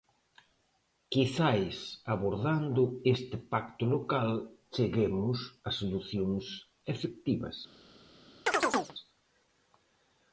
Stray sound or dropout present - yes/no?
yes